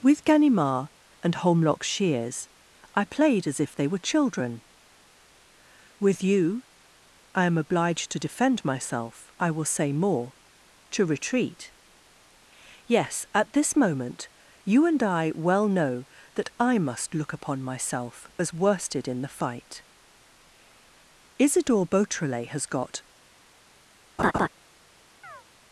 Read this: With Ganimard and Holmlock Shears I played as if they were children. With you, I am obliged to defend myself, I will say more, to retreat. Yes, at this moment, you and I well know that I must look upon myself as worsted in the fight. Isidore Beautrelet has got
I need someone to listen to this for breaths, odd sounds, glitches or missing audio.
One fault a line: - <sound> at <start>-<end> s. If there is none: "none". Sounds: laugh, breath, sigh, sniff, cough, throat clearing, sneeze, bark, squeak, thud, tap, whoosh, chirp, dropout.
- laugh at 24.2-24.5 s
- chirp at 25.2-25.4 s